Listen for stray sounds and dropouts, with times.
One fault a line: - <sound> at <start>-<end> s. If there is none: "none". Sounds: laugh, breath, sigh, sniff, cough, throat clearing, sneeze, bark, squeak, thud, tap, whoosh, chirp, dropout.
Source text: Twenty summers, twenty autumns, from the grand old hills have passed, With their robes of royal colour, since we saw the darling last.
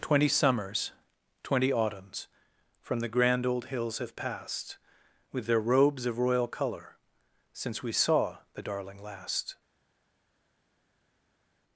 none